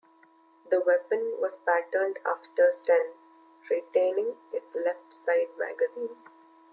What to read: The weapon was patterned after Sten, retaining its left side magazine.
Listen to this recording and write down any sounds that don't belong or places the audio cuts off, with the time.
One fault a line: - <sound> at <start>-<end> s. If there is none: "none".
none